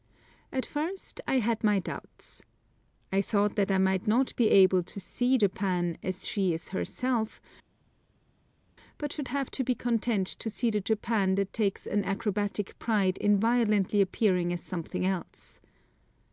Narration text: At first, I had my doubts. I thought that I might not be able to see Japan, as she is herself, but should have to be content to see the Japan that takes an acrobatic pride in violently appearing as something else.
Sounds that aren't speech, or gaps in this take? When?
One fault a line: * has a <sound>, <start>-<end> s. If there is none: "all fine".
all fine